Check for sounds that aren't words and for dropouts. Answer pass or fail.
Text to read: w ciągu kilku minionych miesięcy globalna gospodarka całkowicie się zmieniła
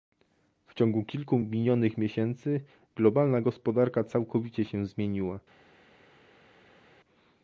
pass